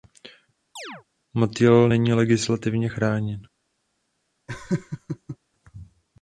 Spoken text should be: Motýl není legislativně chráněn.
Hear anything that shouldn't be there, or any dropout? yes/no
yes